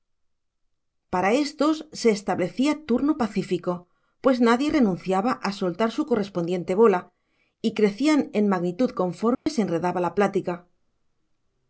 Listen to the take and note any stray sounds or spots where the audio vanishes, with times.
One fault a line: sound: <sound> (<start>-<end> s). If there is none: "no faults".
sound: dropout (9.3-9.5 s)